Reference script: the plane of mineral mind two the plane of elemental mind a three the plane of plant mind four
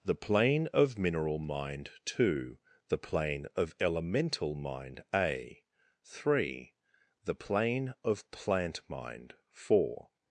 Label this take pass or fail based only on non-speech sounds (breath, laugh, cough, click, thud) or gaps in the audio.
pass